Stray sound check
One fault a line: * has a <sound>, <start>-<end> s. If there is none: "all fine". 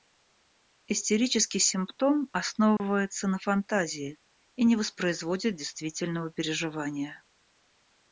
* has a dropout, 2.8-2.8 s